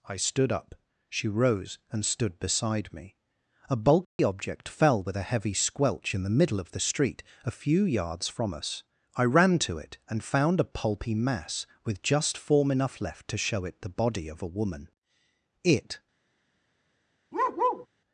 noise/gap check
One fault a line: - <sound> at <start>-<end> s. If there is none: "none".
- dropout at 4.0-4.2 s
- bark at 17.3-17.9 s